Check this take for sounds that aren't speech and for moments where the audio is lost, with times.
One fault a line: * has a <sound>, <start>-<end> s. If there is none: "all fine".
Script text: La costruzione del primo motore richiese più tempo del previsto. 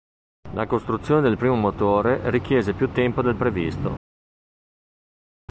all fine